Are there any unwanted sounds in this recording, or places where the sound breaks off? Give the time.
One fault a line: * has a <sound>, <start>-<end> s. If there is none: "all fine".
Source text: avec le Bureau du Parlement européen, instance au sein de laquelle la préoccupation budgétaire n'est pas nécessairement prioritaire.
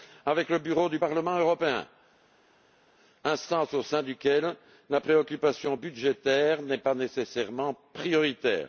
all fine